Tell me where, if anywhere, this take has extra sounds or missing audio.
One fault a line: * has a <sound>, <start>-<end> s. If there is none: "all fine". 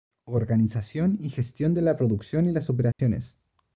* has a dropout, 2.9-3.0 s